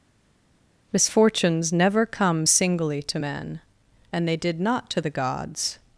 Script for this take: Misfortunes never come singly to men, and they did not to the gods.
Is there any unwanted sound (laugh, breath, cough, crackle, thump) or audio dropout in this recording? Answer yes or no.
no